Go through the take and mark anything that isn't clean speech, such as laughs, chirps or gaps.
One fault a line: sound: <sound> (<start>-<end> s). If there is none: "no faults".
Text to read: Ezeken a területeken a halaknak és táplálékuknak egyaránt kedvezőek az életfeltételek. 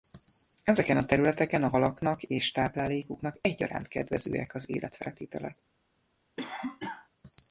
sound: cough (6.4-7.1 s)